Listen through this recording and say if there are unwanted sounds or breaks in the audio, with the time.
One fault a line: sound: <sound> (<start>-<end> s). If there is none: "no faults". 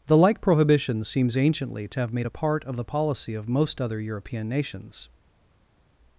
no faults